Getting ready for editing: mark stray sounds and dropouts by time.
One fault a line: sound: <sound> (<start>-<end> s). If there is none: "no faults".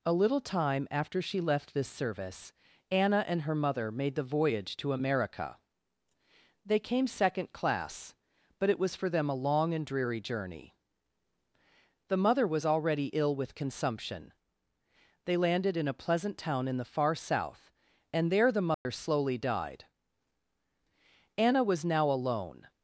sound: dropout (18.7-18.9 s)